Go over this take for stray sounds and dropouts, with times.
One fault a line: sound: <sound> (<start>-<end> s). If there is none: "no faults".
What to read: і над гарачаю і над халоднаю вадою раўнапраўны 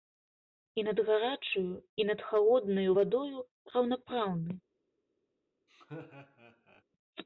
sound: laugh (5.7-6.8 s)